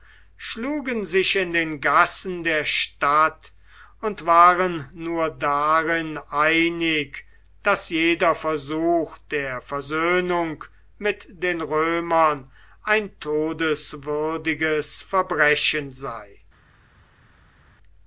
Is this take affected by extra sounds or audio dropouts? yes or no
no